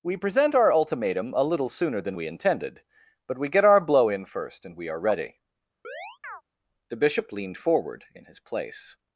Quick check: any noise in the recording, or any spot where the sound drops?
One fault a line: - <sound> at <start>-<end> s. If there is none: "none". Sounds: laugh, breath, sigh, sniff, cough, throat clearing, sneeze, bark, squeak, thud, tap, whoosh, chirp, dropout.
- chirp at 5.8-6.4 s